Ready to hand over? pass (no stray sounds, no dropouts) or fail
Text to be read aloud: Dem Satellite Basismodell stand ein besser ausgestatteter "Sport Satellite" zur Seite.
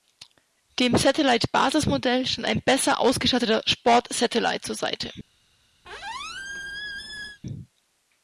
fail